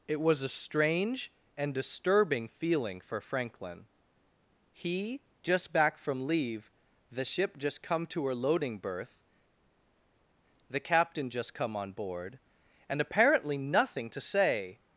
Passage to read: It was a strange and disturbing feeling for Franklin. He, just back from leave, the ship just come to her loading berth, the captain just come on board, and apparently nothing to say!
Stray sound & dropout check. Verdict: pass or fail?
pass